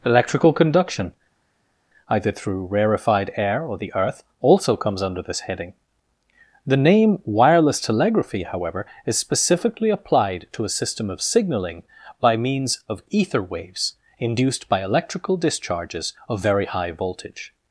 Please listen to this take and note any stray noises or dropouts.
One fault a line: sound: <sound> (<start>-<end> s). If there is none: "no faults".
no faults